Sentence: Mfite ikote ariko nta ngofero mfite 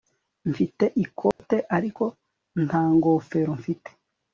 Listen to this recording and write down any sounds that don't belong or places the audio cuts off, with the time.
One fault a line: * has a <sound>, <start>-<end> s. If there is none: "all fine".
* has a dropout, 1.3-1.4 s